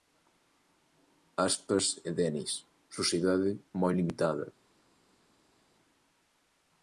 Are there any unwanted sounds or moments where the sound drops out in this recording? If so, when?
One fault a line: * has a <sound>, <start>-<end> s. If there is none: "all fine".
all fine